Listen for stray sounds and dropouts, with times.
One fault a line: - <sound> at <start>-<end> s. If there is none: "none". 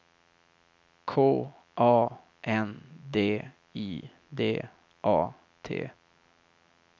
none